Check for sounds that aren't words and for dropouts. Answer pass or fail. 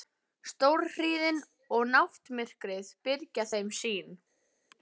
pass